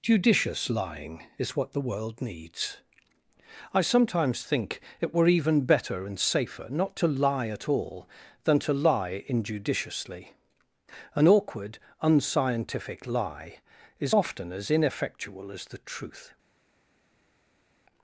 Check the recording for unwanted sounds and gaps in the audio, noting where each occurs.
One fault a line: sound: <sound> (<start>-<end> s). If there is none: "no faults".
no faults